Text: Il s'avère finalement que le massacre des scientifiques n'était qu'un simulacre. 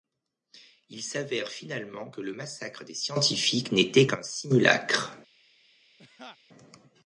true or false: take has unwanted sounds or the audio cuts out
true